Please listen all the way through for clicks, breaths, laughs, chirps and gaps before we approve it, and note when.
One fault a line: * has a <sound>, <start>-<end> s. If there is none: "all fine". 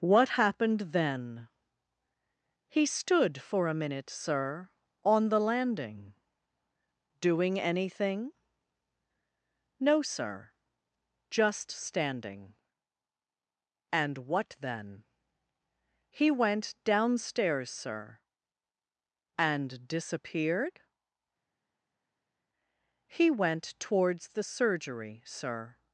all fine